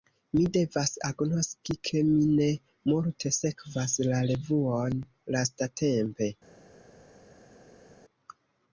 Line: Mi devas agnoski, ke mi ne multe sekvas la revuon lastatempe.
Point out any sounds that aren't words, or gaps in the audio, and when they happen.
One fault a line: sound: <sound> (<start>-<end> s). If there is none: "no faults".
no faults